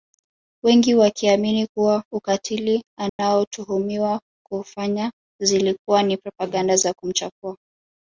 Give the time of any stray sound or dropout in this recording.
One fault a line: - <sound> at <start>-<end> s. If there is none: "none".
- dropout at 3.1-3.2 s